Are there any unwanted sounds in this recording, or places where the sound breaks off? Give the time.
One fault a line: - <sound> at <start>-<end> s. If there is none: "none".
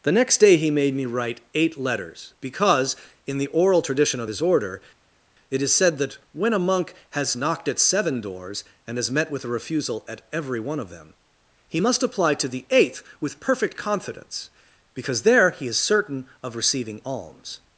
none